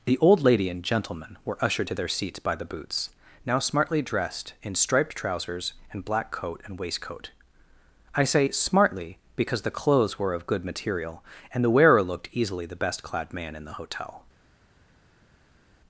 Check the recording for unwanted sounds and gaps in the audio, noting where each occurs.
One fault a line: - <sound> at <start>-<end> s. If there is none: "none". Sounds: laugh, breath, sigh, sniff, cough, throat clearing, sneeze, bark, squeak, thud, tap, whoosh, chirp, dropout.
none